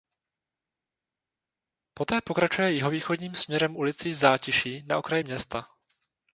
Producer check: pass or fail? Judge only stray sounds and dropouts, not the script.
pass